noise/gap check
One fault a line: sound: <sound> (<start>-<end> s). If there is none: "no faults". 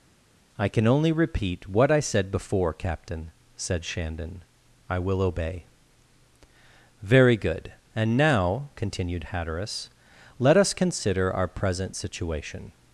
no faults